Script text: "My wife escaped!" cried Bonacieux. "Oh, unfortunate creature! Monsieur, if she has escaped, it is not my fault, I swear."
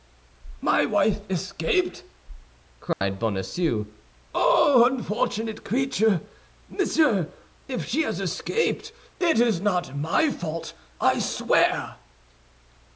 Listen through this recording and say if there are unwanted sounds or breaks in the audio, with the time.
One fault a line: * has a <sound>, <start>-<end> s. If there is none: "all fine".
* has a dropout, 2.9-3.0 s